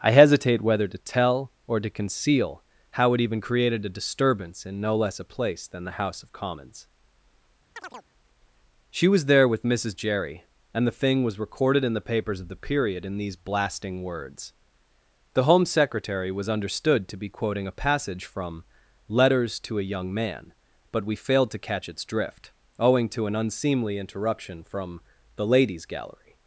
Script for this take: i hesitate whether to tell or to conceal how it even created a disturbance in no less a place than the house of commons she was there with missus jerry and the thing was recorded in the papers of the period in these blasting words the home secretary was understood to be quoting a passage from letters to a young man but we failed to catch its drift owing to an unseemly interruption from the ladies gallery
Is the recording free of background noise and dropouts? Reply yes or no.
no